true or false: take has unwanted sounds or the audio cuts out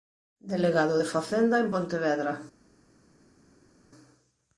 false